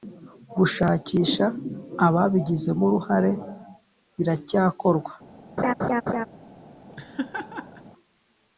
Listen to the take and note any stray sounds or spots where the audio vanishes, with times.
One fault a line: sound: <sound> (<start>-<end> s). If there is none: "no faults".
sound: laugh (5.6-6.3 s)
sound: laugh (6.9-7.8 s)